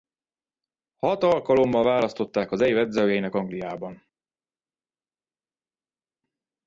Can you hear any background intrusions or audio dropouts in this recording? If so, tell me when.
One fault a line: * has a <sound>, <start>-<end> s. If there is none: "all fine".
all fine